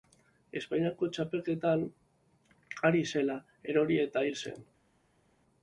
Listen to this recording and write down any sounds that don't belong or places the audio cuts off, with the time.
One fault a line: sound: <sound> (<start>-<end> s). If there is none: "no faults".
no faults